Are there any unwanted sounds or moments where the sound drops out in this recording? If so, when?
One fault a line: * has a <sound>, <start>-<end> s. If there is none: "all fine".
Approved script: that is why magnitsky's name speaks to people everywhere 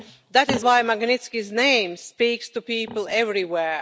all fine